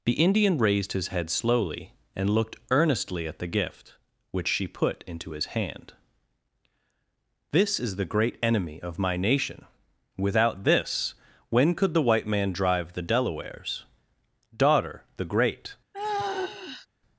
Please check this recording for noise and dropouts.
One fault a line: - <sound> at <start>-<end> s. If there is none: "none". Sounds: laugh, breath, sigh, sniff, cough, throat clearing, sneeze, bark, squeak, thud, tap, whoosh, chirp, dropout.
- sigh at 15.9-16.9 s